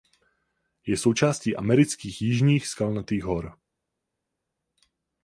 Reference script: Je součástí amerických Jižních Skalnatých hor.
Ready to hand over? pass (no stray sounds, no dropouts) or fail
pass